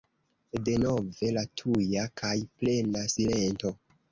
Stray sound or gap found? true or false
false